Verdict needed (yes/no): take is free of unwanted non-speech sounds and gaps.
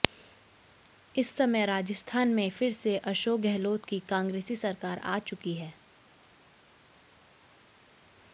yes